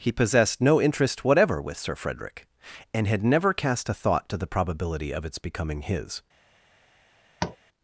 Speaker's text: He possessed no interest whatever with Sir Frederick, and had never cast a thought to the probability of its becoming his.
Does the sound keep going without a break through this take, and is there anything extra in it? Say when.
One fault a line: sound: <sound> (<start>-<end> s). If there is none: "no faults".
sound: tap (7.4-7.6 s)